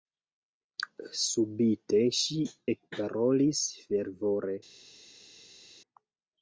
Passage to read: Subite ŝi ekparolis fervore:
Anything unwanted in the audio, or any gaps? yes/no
no